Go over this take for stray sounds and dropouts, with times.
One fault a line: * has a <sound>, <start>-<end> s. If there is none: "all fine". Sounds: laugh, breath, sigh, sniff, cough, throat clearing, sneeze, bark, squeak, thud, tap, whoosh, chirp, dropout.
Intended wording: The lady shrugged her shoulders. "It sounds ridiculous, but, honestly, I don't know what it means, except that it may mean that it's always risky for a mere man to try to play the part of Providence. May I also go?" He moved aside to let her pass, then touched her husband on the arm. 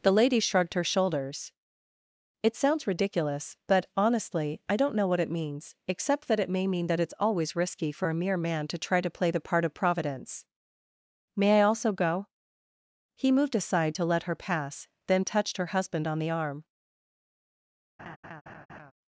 * has a laugh, 18.0-18.9 s